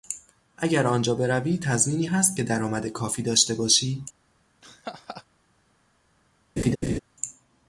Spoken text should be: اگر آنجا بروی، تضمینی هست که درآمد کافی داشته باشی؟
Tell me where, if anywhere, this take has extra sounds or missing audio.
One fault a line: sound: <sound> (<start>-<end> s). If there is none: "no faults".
sound: laugh (4.6-5.2 s)
sound: laugh (6.6-7.0 s)